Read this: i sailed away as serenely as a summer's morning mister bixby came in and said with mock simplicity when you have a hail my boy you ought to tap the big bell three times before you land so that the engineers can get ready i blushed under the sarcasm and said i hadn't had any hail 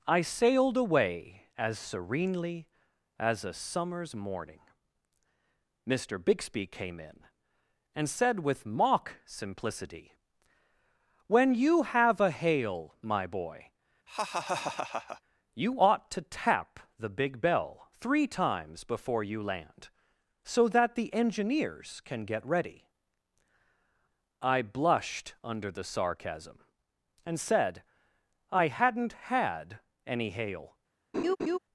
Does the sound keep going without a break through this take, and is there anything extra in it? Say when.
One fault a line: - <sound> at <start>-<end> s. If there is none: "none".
- laugh at 14.1-15.2 s
- laugh at 31.1-31.6 s